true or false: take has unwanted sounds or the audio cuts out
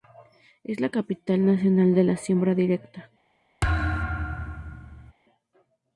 true